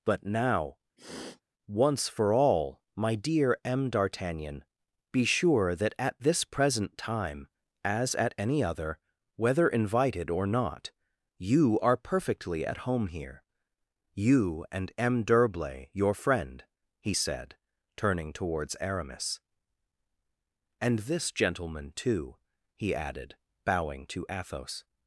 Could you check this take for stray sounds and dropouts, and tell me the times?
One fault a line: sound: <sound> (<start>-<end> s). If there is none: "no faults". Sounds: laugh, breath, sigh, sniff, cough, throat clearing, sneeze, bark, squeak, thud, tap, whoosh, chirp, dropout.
sound: sniff (1.0-1.4 s)